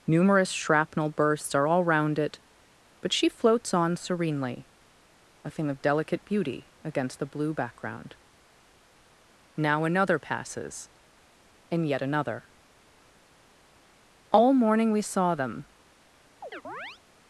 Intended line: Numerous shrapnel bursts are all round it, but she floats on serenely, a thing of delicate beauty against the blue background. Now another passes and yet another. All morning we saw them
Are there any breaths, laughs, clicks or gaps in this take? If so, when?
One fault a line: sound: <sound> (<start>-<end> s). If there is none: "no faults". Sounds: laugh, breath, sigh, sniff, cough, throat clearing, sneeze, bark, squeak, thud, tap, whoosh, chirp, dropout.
sound: chirp (16.4-17.0 s)